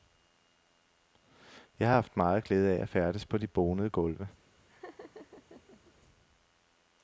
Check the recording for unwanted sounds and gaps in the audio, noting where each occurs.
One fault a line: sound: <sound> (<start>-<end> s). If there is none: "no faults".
sound: laugh (4.7-5.9 s)